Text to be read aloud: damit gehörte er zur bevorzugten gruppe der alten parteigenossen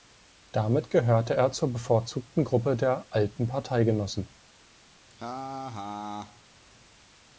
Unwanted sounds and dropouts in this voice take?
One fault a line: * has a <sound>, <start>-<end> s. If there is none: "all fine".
* has a laugh, 5.1-6.4 s